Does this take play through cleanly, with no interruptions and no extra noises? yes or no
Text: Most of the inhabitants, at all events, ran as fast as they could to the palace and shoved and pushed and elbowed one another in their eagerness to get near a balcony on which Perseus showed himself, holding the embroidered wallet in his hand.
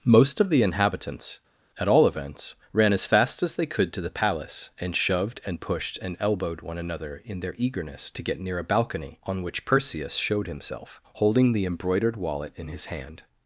yes